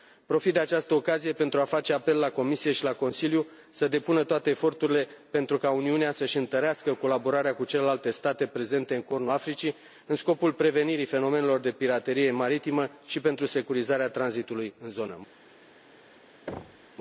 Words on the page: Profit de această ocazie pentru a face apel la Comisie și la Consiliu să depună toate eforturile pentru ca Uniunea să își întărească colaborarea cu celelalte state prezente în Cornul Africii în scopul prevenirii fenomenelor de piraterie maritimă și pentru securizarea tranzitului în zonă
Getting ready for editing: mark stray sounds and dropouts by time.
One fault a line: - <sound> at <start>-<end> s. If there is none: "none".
- thud at 16.5-16.9 s